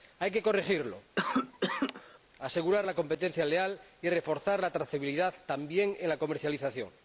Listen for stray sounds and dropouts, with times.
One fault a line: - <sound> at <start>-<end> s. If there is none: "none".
- cough at 1.2-2.2 s